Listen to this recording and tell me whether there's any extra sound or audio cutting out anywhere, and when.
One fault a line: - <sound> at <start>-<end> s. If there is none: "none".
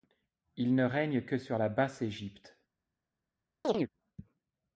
- chirp at 3.6-3.9 s